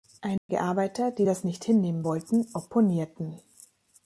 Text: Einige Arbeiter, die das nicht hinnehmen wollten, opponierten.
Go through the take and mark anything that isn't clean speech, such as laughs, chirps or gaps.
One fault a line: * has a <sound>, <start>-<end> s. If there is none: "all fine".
* has a dropout, 0.4-0.5 s